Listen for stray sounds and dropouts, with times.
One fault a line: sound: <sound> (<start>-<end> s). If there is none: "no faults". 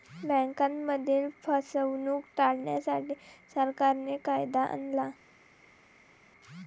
no faults